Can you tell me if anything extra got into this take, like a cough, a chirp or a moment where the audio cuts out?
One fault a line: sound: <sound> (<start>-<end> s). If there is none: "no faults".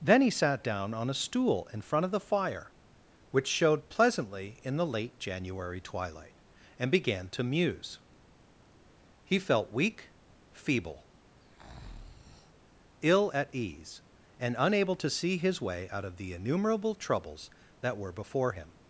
sound: breath (11.4-12.7 s)